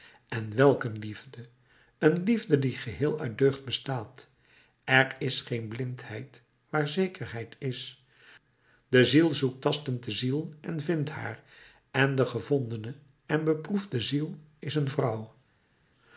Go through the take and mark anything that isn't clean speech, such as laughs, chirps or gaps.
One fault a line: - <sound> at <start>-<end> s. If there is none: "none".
none